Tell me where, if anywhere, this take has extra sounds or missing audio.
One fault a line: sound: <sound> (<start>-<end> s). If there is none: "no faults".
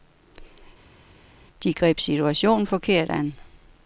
no faults